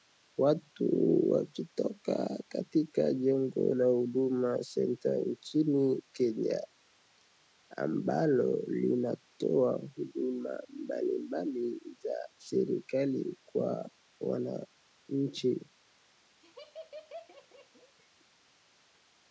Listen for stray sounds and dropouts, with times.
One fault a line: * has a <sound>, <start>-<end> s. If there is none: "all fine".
* has a laugh, 16.4-17.9 s